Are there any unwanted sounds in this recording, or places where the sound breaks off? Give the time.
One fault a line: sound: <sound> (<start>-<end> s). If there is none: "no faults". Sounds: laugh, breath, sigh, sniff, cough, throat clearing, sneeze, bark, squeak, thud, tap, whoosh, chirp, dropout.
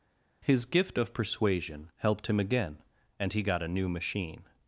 no faults